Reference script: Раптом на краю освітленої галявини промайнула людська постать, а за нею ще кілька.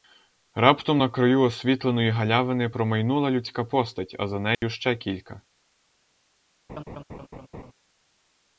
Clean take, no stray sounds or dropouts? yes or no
no